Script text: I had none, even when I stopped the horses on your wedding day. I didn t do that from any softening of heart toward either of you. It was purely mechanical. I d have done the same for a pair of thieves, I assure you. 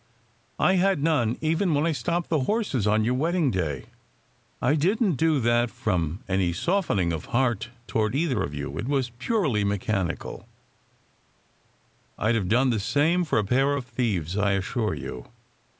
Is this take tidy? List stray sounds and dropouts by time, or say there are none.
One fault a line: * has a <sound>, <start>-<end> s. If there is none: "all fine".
all fine